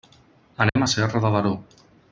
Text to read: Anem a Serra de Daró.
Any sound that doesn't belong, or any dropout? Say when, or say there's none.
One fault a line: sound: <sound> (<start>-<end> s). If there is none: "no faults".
sound: dropout (0.7-0.8 s)